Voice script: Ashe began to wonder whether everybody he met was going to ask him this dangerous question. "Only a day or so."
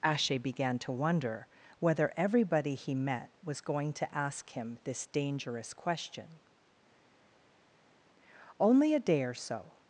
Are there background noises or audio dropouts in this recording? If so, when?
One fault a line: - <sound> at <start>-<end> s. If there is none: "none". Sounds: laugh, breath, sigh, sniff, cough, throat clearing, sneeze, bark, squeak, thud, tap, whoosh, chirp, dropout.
none